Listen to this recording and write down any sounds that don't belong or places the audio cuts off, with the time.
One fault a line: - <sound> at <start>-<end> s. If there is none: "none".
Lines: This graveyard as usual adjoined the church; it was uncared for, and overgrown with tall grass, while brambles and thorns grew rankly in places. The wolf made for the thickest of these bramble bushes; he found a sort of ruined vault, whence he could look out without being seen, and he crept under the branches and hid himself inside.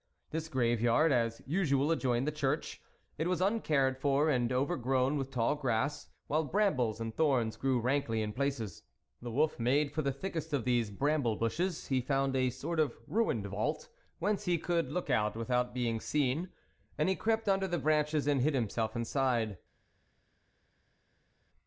none